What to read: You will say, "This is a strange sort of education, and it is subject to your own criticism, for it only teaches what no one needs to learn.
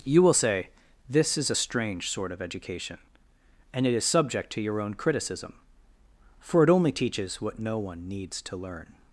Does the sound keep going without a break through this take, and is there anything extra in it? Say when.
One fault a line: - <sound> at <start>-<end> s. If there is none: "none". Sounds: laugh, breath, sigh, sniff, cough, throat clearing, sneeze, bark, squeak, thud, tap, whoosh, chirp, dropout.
none